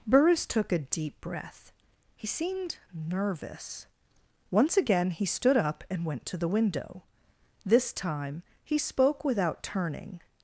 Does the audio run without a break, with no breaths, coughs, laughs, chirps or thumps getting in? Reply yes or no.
yes